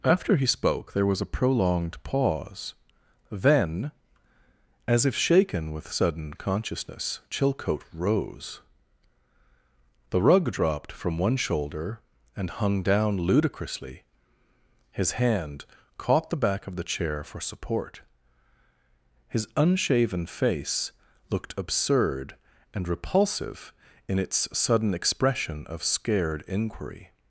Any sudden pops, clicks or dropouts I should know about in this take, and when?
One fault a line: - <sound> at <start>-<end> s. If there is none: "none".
none